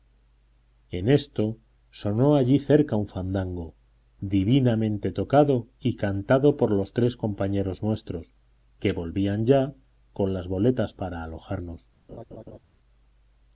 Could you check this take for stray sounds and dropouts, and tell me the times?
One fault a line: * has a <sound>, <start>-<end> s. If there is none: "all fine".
* has a laugh, 12.1-12.6 s